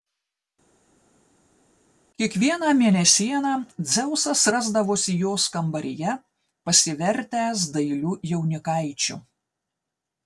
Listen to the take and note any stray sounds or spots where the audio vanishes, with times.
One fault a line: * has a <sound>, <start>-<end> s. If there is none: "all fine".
all fine